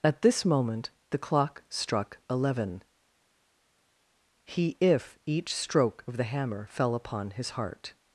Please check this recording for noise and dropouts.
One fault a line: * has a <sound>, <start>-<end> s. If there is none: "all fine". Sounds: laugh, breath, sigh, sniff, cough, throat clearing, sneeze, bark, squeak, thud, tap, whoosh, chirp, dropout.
all fine